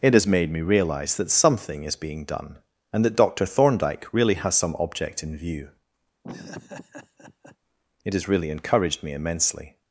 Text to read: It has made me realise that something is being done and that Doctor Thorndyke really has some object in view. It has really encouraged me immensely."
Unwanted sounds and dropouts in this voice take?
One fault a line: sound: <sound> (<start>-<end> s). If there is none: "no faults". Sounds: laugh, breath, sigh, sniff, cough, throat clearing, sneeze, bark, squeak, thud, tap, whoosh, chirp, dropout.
sound: laugh (6.2-7.6 s)